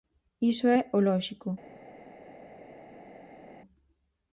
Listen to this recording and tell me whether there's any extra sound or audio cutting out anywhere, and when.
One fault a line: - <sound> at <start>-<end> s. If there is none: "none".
none